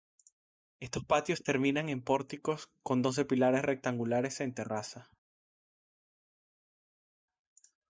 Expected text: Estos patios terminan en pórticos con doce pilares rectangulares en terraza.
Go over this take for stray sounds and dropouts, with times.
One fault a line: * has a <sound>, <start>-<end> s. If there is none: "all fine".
all fine